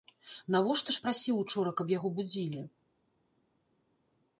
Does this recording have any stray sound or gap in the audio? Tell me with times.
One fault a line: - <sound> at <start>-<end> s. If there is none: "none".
none